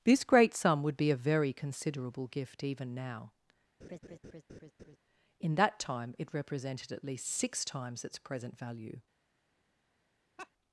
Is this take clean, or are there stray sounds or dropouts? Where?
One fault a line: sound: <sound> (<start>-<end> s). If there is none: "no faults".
sound: laugh (3.8-5.0 s)
sound: laugh (10.4-10.5 s)